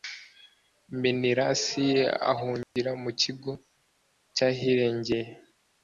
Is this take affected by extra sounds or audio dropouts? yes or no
yes